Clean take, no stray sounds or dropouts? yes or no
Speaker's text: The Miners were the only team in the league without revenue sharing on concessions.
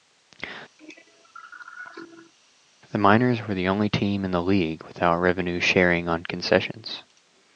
no